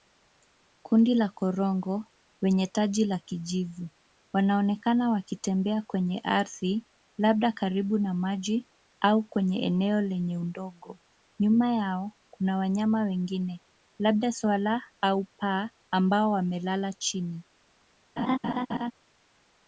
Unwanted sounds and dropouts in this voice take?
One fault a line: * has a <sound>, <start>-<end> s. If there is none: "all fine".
* has a laugh, 18.2-18.9 s